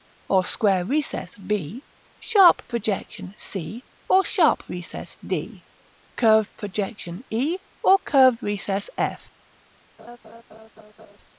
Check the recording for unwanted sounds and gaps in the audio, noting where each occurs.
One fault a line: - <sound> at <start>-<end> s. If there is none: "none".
- laugh at 10.0-11.2 s